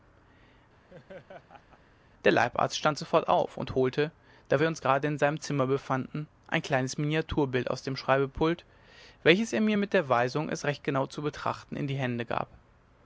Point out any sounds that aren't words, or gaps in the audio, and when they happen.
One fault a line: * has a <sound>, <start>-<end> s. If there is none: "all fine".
* has a laugh, 0.9-1.8 s